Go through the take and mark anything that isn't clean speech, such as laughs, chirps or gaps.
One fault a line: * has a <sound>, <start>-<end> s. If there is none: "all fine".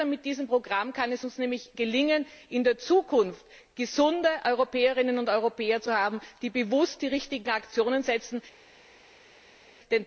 all fine